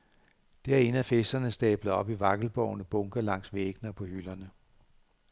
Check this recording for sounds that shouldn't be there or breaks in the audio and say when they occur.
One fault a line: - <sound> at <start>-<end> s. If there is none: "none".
none